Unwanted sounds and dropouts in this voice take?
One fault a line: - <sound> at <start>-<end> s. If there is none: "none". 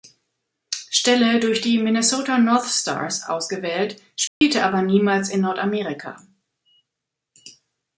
- dropout at 4.3-4.4 s